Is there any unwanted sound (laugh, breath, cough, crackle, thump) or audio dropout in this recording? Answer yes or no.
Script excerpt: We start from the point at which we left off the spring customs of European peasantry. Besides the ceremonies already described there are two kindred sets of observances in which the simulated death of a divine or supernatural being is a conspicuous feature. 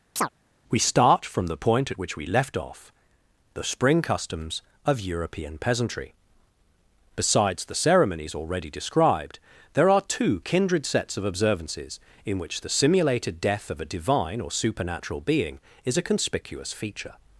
yes